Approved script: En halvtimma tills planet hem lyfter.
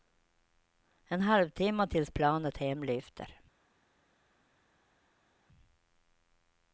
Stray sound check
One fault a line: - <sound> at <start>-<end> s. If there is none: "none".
none